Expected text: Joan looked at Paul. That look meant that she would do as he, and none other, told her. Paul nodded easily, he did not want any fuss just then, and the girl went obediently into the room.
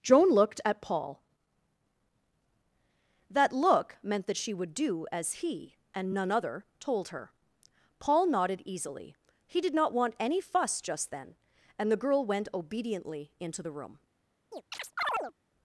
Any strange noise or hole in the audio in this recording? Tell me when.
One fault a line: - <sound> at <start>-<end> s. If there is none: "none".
- chirp at 14.5-15.3 s